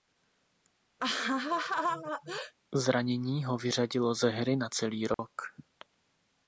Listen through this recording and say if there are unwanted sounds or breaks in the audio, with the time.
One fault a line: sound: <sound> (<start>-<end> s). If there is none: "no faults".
sound: laugh (1.0-2.5 s)
sound: dropout (5.1-5.2 s)